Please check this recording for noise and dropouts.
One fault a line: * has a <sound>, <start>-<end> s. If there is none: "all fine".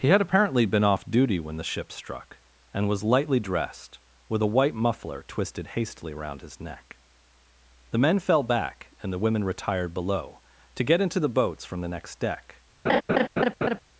* has a laugh, 12.9-13.8 s